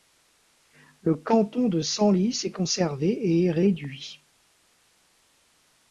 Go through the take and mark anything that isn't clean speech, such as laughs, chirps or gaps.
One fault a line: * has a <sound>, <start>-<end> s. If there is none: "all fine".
all fine